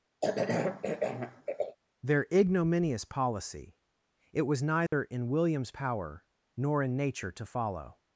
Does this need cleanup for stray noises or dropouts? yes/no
yes